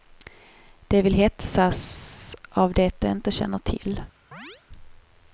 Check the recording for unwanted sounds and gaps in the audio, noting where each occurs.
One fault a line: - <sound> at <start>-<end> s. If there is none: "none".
- chirp at 4.3-4.6 s